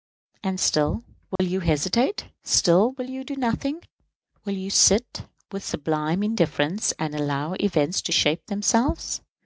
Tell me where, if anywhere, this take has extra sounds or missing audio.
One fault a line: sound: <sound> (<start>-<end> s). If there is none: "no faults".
sound: dropout (1.4-1.4 s)